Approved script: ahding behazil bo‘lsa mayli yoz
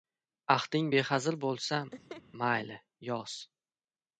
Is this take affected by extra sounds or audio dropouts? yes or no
yes